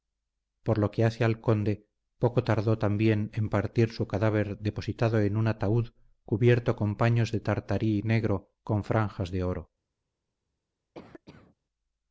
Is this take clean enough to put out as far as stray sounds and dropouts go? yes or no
no